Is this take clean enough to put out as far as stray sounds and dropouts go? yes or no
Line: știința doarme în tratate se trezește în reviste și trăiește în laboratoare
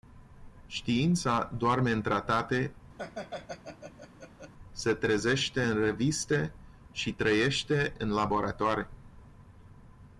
no